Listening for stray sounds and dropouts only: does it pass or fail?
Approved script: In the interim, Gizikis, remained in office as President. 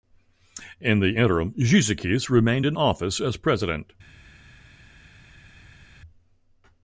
pass